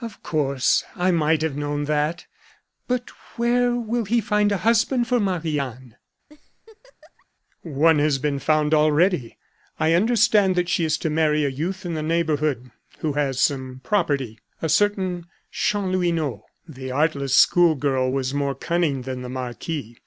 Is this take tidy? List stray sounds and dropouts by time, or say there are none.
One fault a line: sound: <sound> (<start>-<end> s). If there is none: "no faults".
sound: laugh (6.3-7.3 s)